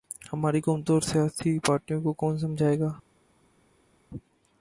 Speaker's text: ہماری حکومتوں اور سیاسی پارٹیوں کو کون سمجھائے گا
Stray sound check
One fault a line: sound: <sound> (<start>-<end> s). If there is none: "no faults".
no faults